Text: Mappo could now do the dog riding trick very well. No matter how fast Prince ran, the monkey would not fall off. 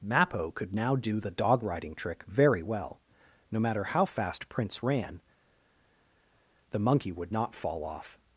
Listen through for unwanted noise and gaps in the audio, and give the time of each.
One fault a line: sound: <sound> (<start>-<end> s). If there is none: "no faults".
no faults